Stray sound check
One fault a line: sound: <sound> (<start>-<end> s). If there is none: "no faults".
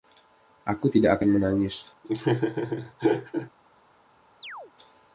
sound: laugh (2.0-3.5 s)
sound: chirp (4.4-4.7 s)